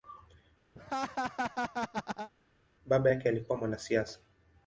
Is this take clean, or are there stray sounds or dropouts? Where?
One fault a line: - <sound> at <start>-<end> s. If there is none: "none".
- laugh at 0.8-2.3 s